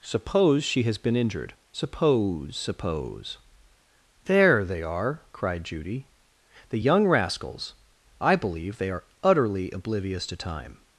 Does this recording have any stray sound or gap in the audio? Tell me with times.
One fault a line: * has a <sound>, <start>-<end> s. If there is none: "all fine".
all fine